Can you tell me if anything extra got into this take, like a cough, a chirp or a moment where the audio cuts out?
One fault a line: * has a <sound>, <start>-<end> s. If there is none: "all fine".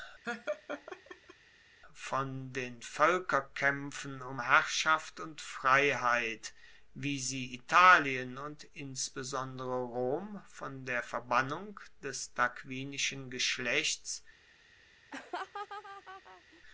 * has a laugh, 0.2-1.3 s
* has a laugh, 15.1-16.6 s